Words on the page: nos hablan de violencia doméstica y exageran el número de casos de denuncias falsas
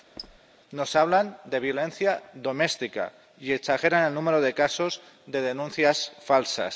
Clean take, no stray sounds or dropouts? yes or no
no